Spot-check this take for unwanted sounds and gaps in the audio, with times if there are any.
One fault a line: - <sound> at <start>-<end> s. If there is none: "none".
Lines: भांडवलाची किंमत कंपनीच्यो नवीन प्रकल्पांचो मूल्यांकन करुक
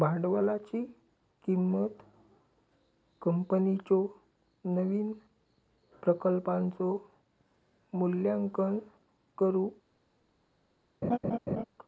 - laugh at 11.0-11.6 s